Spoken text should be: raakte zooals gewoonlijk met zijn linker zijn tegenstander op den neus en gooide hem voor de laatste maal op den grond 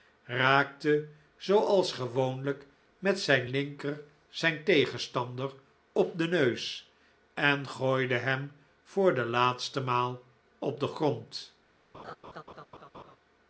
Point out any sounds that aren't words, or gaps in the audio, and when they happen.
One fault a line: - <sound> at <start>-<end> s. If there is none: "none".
- laugh at 11.9-13.2 s